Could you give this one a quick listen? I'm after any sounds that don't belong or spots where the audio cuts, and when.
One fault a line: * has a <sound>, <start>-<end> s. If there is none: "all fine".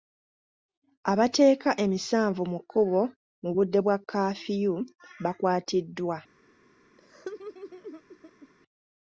* has a laugh, 7.0-8.5 s